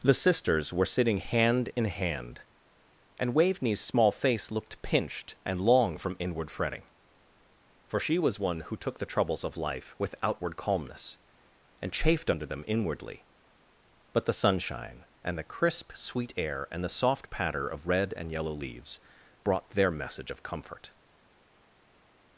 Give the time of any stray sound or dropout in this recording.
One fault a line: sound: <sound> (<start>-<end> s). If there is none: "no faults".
no faults